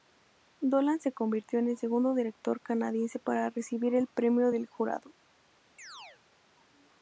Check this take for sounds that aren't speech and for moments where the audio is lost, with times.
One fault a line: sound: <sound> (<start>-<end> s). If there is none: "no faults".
sound: chirp (5.8-6.2 s)